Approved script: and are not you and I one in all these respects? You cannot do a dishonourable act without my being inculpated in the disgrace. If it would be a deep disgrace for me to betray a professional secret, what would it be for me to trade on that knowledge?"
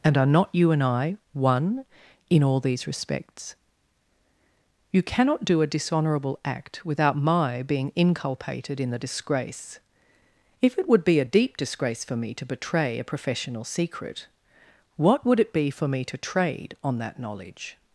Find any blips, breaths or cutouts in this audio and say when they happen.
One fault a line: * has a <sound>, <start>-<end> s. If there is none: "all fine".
all fine